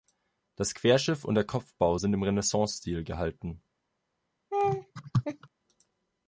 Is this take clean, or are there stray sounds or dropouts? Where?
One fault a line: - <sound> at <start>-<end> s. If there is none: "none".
- laugh at 4.5-5.5 s